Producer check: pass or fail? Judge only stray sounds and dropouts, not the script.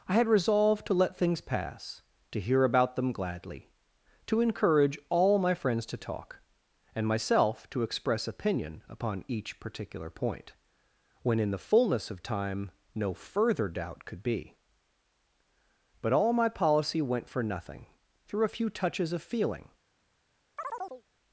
fail